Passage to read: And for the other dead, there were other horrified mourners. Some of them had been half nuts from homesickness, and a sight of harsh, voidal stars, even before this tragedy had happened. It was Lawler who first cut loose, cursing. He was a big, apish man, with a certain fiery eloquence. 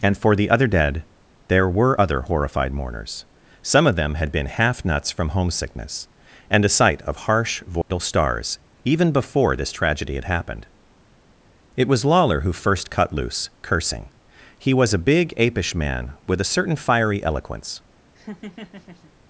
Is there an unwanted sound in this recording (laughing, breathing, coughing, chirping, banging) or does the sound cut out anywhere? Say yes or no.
yes